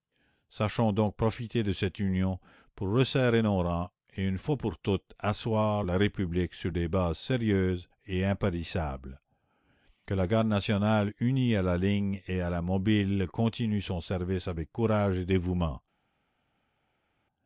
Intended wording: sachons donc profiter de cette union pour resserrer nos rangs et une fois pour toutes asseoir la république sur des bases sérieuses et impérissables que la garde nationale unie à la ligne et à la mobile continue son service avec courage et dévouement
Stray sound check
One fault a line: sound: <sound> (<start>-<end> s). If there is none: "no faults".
no faults